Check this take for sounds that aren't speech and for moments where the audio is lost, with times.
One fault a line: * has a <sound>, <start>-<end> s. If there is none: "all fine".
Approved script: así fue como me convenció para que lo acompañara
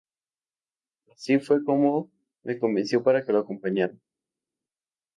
all fine